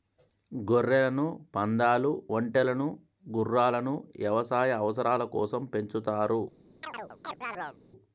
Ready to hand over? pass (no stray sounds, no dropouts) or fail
fail